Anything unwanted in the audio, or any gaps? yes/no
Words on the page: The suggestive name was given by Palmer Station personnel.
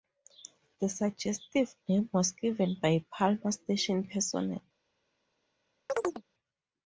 yes